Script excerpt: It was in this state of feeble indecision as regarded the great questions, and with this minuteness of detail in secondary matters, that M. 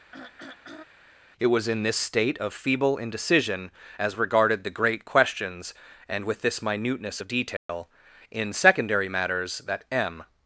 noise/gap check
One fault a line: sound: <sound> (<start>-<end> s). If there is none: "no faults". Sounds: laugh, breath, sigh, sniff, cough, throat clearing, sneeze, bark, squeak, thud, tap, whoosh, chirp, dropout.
sound: throat clearing (0.1-0.8 s)
sound: dropout (7.6-7.7 s)